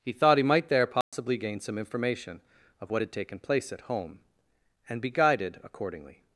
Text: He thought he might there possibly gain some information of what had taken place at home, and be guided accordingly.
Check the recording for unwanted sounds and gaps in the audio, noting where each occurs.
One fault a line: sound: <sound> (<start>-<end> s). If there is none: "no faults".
sound: dropout (1.0-1.1 s)